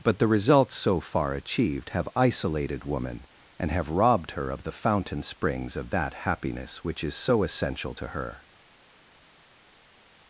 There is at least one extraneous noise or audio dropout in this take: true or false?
false